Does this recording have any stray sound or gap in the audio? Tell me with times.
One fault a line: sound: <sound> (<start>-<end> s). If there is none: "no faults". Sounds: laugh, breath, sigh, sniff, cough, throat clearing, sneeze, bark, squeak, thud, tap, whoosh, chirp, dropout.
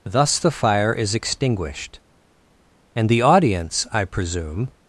no faults